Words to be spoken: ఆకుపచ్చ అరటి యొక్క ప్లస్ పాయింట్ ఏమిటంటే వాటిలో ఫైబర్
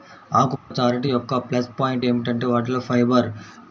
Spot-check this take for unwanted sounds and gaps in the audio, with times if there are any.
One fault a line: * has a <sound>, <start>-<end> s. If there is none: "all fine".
* has a dropout, 0.6-0.7 s